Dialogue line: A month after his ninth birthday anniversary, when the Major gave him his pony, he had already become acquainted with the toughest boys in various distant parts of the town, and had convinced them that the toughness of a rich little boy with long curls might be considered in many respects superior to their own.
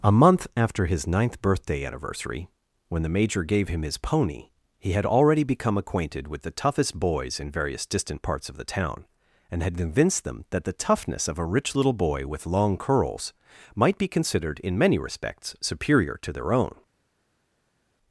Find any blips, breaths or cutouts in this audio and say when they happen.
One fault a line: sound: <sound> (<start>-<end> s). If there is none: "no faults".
no faults